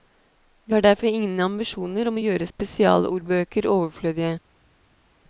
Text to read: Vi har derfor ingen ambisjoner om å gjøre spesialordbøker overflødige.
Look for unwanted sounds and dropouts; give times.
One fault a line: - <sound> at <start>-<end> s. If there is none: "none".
none